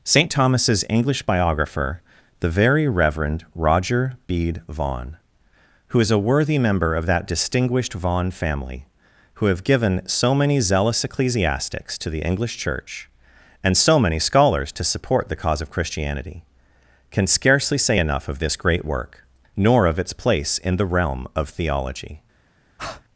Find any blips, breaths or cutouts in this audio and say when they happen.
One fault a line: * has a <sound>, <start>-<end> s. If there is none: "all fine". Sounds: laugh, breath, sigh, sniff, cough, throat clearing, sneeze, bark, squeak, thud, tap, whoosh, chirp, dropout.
* has a breath, 22.8-23.0 s